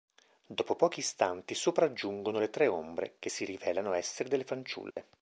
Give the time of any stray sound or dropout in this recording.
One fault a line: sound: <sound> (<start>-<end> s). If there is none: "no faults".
sound: dropout (4.9-5.0 s)